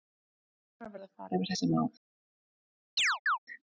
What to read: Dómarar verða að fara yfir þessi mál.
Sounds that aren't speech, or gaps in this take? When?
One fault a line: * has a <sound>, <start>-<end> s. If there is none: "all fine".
* has a chirp, 3.0-3.4 s